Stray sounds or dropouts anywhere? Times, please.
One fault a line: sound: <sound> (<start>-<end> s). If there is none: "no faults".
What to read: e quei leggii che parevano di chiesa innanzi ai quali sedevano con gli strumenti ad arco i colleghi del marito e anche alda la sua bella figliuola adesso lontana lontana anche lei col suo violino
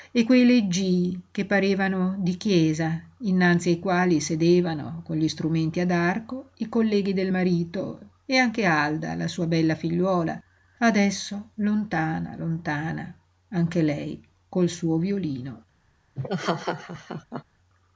sound: laugh (16.2-17.4 s)